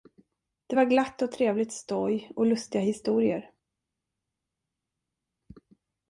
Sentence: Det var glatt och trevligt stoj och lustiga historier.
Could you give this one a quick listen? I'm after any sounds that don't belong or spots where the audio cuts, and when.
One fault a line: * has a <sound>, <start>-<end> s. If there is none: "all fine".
all fine